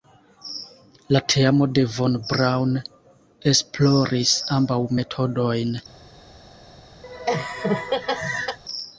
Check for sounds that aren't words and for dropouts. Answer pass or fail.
fail